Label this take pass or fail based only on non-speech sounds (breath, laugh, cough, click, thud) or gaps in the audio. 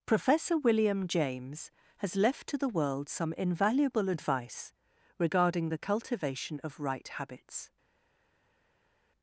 pass